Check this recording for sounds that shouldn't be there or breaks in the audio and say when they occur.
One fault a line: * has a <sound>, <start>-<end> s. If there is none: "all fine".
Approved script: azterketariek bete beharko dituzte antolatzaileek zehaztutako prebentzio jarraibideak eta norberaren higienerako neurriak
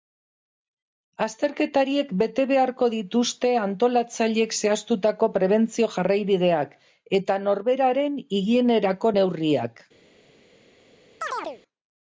* has a chirp, 11.2-11.6 s